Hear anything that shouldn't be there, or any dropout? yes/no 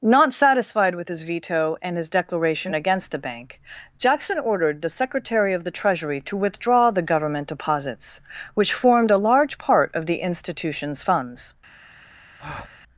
yes